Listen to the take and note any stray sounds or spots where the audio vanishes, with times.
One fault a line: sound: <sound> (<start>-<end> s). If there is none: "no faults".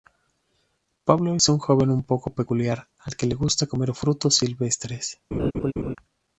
sound: laugh (5.3-6.0 s)